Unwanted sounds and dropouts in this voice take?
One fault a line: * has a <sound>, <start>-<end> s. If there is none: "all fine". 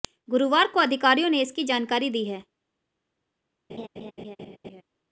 * has a laugh, 3.7-4.8 s